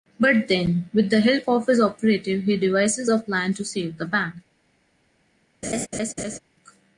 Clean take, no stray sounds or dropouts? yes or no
no